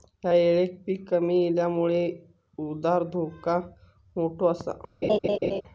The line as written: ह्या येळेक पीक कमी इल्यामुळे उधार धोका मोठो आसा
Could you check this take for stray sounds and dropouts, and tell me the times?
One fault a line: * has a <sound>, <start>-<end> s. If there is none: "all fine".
* has a laugh, 5.0-5.6 s